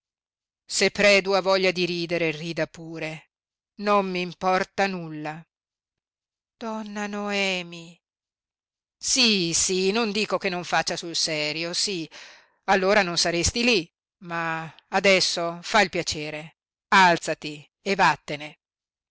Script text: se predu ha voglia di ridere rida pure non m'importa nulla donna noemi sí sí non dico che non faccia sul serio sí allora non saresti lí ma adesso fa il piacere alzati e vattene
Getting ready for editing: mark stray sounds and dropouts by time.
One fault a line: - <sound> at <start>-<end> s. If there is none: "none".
none